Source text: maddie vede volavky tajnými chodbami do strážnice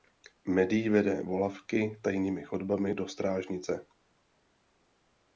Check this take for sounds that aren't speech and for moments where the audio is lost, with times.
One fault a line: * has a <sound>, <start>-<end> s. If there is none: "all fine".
all fine